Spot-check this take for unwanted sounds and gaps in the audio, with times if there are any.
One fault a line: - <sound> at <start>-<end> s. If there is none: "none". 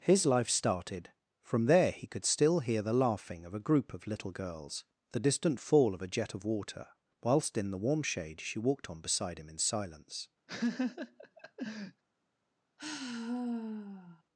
- laugh at 10.5-12.0 s
- sigh at 12.8-14.2 s